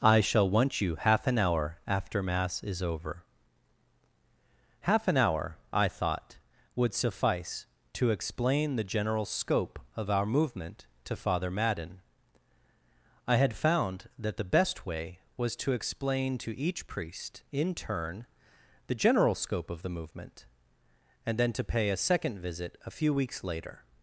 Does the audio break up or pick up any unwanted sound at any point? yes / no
no